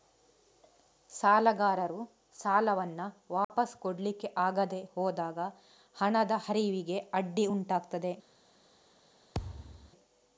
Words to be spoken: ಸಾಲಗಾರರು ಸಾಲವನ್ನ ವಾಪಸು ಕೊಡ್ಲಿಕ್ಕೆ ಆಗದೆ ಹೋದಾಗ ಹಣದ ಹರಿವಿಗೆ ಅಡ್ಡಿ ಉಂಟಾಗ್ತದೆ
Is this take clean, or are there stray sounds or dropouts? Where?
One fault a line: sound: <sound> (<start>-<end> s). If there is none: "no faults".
sound: dropout (3.4-3.5 s)
sound: thud (9.3-9.9 s)